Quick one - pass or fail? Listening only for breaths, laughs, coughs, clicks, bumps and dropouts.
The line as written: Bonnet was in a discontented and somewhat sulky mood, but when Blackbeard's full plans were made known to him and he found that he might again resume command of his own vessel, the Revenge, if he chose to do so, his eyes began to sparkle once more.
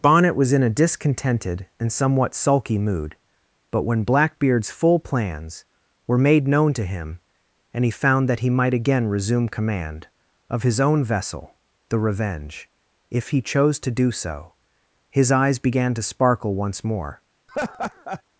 fail